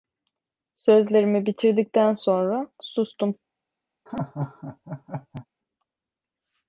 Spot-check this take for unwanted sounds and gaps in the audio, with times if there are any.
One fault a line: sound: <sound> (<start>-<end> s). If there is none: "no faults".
sound: laugh (4.1-5.5 s)